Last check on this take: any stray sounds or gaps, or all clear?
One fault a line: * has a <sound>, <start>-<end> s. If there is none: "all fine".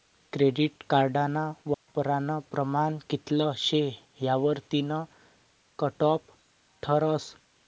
* has a dropout, 1.7-1.9 s